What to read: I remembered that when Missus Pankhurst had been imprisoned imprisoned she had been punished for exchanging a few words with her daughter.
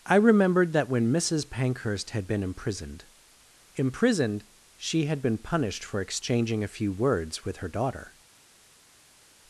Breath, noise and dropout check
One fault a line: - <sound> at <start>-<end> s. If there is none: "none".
none